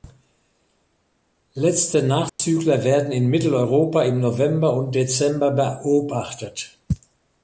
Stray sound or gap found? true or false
true